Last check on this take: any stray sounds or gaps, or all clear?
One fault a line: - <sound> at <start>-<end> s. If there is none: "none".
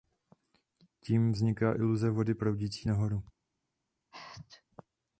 - sneeze at 4.1-4.6 s